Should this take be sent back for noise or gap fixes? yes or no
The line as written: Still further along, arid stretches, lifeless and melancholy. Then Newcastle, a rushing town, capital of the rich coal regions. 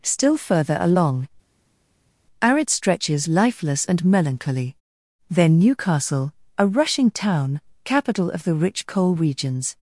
no